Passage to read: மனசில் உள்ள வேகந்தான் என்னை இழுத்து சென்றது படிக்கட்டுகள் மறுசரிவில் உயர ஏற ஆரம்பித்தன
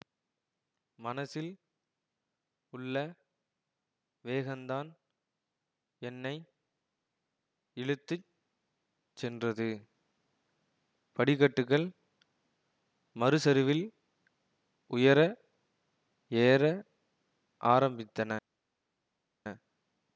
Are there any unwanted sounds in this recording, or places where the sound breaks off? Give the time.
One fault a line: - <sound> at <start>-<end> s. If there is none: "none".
none